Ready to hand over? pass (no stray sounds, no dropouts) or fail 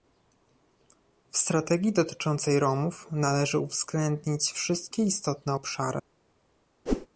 fail